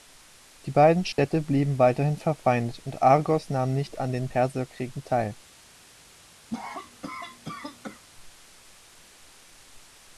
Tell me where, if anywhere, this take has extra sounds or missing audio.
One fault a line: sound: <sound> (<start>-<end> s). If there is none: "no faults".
sound: dropout (1.1-1.2 s)
sound: cough (6.5-8.0 s)